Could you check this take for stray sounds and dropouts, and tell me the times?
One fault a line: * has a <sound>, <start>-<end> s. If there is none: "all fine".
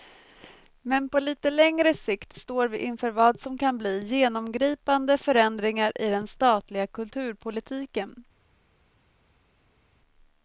all fine